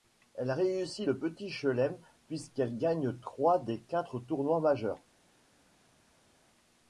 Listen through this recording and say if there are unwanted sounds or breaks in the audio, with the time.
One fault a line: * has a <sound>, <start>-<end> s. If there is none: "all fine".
all fine